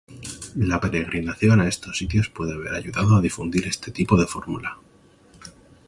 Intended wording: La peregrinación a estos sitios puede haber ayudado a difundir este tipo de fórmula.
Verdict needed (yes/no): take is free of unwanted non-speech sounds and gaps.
yes